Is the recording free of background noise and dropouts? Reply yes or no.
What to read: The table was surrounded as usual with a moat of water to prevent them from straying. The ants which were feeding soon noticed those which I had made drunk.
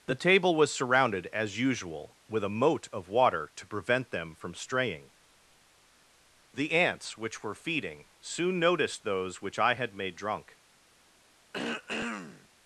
no